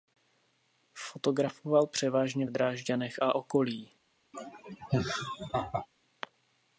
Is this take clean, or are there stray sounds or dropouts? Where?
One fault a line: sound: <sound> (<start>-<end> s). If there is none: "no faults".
sound: laugh (4.3-5.9 s)